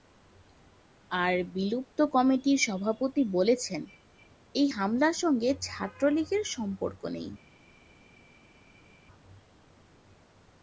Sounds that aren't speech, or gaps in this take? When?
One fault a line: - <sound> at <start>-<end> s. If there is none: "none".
none